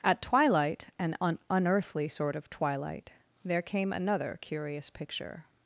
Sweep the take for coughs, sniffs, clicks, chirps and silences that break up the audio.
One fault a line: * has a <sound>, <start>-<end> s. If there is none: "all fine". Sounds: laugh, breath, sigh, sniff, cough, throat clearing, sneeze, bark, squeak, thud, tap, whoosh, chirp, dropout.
all fine